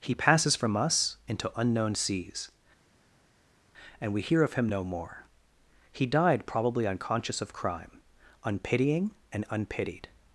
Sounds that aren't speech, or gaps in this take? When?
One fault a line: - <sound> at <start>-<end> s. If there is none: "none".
none